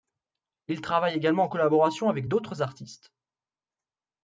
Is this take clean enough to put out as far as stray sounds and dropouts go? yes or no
yes